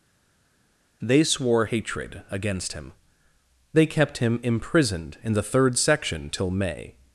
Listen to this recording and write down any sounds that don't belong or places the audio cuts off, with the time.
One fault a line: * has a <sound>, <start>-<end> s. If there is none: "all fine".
all fine